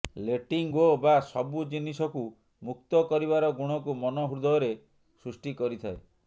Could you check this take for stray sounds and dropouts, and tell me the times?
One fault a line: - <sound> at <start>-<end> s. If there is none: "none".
none